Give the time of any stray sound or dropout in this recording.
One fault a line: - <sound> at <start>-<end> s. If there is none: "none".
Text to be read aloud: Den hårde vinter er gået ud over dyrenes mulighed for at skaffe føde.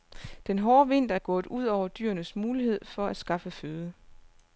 none